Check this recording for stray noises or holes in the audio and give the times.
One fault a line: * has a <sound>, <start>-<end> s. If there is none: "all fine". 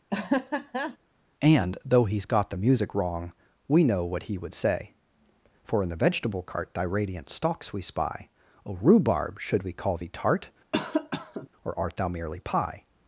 * has a laugh, 0.1-1.0 s
* has a cough, 10.7-11.5 s